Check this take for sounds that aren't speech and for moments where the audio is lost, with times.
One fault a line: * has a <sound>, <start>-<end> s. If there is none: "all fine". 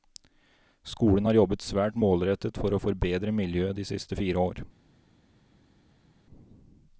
all fine